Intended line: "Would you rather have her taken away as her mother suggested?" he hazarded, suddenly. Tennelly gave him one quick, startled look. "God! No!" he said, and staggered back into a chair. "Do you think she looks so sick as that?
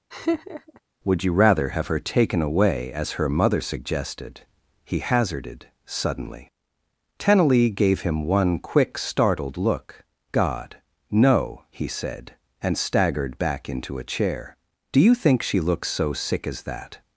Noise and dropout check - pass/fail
fail